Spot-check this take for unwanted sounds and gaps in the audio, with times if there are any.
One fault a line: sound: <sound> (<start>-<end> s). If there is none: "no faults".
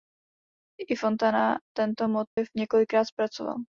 sound: dropout (2.3-2.4 s)